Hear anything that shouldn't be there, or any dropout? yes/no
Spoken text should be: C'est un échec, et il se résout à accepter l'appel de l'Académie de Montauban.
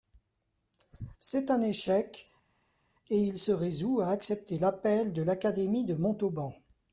no